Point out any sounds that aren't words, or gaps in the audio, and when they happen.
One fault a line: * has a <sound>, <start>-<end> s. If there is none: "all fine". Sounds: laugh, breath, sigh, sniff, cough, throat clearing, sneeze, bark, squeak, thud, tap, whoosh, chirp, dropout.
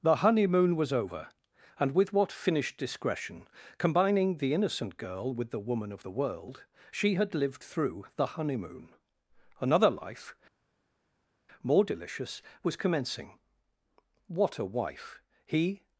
all fine